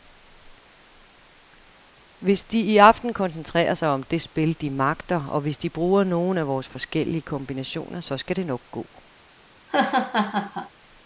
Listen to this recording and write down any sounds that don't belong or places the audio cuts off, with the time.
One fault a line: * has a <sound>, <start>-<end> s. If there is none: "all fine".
* has a laugh, 9.6-10.7 s